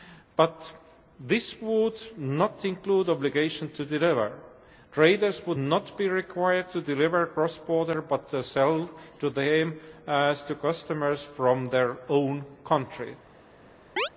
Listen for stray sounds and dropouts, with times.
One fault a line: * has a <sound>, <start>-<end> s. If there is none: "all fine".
* has a chirp, 14.0-14.1 s